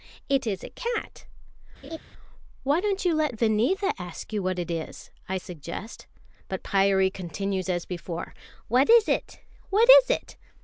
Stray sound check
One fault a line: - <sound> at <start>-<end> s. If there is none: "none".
- laugh at 1.8-2.0 s